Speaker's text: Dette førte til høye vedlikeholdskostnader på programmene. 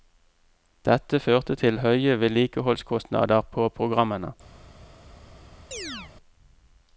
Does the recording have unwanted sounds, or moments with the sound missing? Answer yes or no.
yes